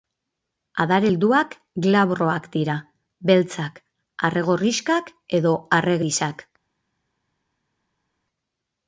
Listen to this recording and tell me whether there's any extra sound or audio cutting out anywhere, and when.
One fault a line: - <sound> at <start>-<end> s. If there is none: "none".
none